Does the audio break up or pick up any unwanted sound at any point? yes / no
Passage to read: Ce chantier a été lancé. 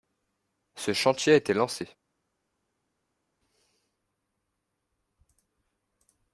no